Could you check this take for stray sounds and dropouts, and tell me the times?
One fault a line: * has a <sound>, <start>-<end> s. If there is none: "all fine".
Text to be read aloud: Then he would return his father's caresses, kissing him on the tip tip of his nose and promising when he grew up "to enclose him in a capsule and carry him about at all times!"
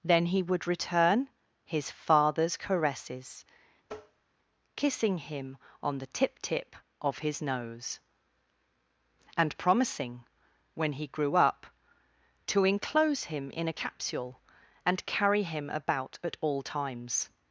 * has a tap, 3.9-4.2 s